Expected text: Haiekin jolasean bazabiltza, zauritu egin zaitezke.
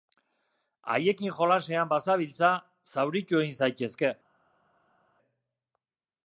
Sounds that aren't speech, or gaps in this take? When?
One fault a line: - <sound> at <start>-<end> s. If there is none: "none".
none